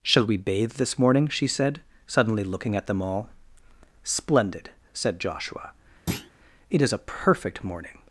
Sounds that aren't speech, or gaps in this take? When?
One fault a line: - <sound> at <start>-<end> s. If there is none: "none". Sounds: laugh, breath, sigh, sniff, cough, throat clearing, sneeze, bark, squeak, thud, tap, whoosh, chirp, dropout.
- thud at 6.1-6.3 s